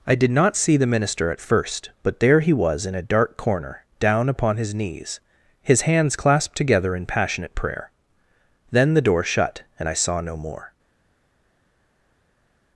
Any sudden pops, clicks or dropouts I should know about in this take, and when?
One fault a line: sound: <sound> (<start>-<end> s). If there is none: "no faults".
no faults